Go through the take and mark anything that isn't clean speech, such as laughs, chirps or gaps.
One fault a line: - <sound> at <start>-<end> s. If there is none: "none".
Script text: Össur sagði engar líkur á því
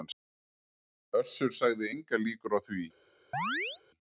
- chirp at 3.3-3.8 s